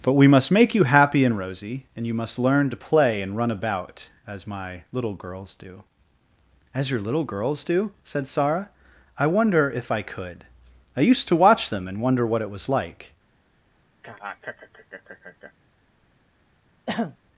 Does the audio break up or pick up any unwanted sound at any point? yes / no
yes